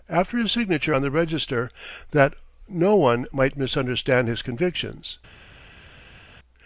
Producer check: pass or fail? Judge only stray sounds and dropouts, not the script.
pass